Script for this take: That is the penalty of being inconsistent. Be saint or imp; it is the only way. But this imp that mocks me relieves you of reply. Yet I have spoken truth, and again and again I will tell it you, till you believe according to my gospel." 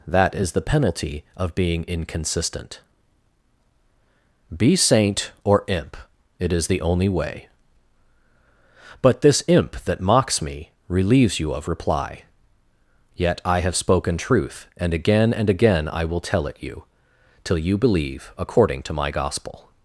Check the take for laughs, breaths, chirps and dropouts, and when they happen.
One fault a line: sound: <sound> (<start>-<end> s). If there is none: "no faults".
no faults